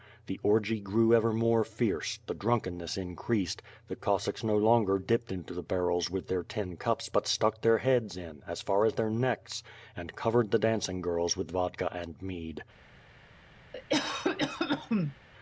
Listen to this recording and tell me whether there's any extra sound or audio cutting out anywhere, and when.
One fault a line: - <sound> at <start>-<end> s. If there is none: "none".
- cough at 13.7-15.2 s